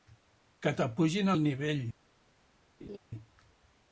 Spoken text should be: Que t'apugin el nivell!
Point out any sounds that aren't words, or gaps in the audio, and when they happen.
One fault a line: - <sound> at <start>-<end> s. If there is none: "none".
- laugh at 2.8-3.0 s